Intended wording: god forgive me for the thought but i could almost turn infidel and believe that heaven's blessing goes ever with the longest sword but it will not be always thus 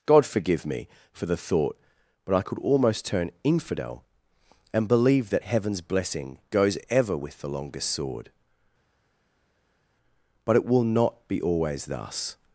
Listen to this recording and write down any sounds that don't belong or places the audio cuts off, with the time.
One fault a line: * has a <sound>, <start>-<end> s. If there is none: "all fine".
all fine